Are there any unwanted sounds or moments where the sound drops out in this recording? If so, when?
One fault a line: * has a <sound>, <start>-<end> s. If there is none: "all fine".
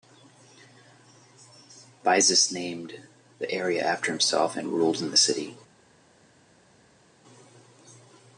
all fine